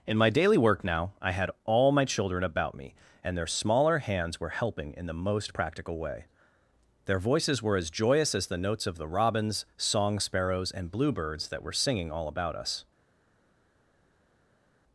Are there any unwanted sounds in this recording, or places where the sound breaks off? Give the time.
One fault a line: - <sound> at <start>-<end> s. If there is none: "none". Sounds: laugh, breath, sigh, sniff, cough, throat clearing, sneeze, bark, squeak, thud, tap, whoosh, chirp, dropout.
none